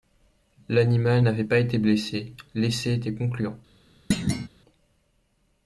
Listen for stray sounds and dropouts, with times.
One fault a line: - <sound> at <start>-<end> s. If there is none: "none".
- thud at 4.1-4.5 s